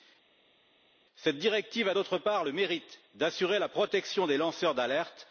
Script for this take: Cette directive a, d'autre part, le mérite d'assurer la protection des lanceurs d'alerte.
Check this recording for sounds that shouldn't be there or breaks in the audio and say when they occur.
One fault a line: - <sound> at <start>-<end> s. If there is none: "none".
none